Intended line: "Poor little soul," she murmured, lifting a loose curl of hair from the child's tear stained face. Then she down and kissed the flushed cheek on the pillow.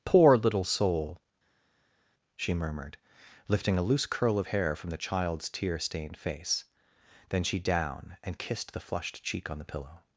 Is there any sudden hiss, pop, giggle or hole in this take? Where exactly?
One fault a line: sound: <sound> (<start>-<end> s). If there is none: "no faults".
no faults